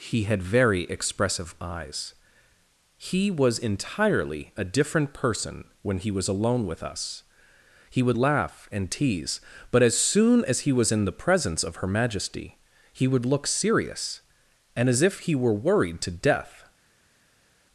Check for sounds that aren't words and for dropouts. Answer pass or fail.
pass